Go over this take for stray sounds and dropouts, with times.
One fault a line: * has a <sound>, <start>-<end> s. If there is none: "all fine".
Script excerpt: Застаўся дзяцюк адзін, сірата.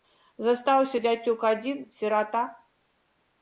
all fine